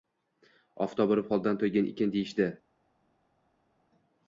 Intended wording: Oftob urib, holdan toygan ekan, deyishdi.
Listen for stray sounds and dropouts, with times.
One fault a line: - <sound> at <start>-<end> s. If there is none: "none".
none